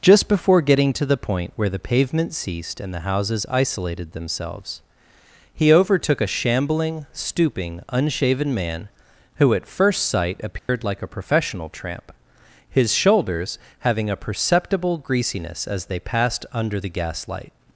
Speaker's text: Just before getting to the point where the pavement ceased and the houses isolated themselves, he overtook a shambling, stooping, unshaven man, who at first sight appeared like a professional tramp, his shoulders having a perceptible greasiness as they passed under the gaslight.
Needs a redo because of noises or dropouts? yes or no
yes